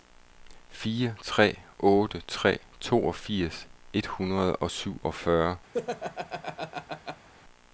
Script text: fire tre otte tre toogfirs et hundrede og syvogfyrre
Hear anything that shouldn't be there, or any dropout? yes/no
yes